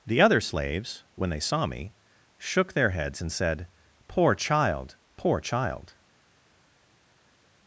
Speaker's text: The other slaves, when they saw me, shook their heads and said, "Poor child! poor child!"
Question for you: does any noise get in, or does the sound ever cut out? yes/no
no